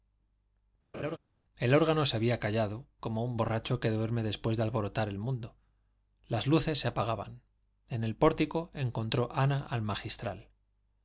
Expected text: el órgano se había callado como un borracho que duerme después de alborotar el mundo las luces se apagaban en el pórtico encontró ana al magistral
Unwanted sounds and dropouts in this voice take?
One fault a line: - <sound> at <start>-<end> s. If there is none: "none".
- laugh at 0.9-1.2 s